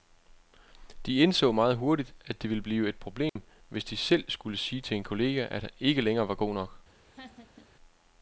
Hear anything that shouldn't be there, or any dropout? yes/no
yes